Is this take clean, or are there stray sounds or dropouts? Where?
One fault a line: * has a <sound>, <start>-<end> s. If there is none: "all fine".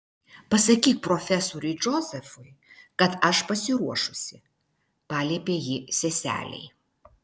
all fine